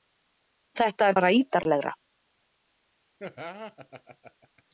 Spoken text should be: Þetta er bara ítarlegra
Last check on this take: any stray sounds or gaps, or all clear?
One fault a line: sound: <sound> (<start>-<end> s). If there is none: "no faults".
sound: laugh (3.2-4.6 s)